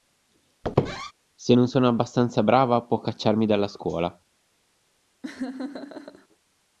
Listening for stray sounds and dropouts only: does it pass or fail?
fail